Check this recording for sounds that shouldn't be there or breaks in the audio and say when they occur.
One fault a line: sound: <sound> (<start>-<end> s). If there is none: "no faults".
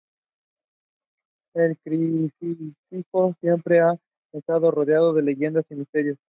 no faults